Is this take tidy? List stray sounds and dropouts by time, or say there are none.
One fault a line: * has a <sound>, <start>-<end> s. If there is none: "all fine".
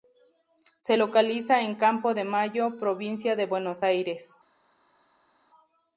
all fine